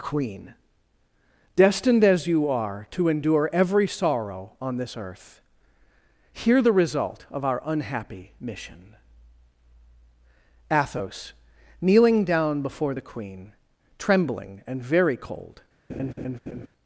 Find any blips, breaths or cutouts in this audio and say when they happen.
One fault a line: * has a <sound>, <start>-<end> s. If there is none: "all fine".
* has a laugh, 15.9-16.7 s